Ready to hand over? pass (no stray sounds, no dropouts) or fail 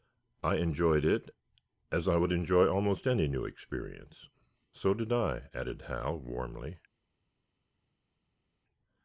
pass